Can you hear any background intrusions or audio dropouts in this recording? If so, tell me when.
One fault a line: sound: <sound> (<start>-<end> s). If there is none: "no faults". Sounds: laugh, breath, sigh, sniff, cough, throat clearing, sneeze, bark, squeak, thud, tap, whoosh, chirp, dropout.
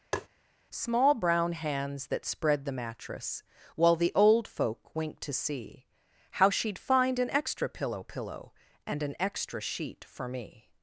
sound: tap (0.1-0.3 s)